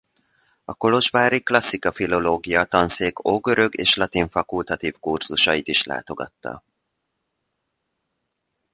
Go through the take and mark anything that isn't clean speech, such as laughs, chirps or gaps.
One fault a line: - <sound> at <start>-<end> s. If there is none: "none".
none